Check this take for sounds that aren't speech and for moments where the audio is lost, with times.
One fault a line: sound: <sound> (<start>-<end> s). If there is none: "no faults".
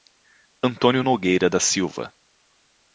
no faults